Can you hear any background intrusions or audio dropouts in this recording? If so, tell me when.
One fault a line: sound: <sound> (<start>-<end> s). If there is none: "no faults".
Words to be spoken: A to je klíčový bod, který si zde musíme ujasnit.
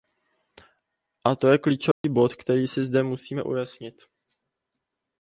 sound: dropout (1.9-2.0 s)